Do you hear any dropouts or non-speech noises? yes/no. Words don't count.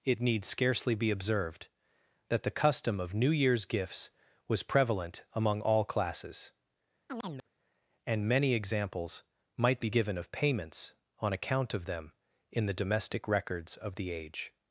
yes